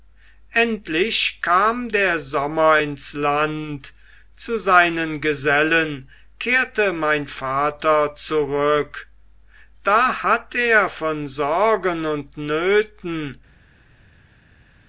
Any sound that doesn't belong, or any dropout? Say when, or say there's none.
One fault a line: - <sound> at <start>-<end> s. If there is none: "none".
none